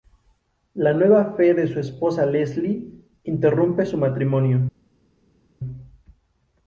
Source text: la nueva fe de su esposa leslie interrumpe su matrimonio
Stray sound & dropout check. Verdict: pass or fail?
pass